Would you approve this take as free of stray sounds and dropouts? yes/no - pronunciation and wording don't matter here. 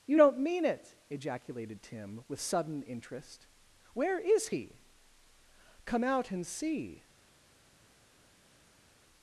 yes